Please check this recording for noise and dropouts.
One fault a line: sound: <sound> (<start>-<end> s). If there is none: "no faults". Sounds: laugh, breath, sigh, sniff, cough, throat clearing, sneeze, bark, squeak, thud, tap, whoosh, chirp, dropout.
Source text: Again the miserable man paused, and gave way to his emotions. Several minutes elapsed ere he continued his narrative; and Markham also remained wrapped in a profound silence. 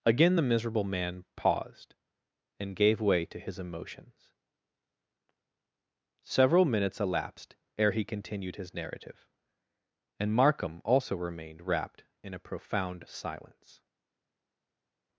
no faults